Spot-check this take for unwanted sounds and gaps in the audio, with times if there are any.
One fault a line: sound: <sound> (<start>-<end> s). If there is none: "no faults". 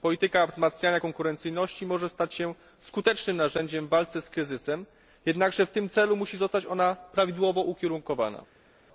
no faults